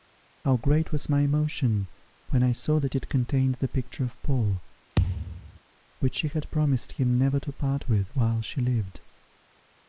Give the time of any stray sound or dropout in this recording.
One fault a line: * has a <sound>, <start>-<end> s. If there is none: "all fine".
* has a thud, 5.0-5.6 s